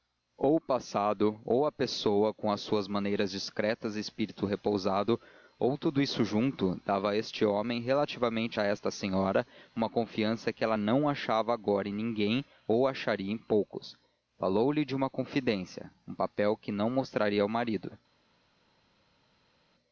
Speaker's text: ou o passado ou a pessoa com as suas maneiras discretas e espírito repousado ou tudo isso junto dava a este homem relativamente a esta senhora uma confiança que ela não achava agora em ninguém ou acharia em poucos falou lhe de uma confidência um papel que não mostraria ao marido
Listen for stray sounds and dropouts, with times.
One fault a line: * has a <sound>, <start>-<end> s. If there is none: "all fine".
all fine